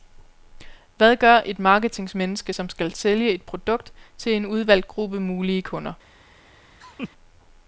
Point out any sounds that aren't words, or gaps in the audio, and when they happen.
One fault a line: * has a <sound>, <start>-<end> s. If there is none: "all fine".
* has a laugh, 6.8-7.1 s